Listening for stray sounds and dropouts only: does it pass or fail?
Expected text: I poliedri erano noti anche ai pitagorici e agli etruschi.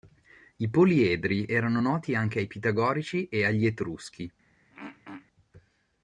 fail